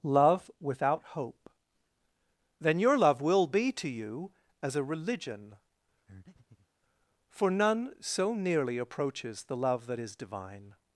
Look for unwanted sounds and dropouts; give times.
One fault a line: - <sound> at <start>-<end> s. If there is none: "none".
- breath at 6.1-6.7 s